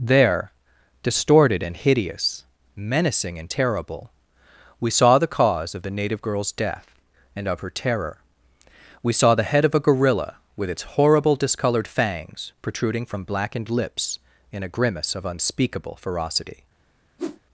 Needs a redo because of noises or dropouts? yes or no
yes